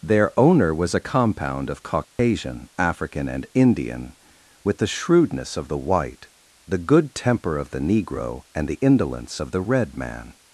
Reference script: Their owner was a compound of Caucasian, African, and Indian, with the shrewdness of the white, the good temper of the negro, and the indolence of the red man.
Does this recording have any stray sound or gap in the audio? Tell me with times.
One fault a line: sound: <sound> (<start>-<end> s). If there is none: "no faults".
sound: dropout (2.0-2.2 s)